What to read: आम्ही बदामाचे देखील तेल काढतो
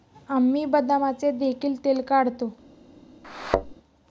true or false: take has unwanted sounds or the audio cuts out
true